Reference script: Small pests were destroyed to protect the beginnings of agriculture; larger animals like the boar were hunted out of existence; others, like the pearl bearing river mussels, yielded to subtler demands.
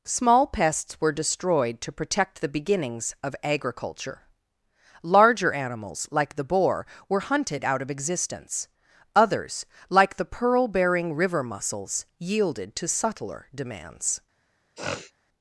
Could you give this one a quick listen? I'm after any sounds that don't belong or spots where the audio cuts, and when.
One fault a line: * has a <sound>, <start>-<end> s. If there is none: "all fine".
* has a sniff, 14.8-15.1 s